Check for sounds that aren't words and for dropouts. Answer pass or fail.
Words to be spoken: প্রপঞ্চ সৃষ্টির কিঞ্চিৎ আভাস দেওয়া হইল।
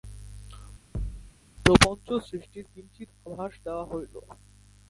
fail